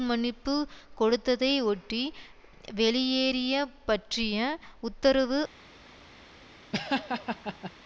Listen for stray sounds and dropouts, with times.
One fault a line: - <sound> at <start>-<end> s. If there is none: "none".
- laugh at 6.7-7.7 s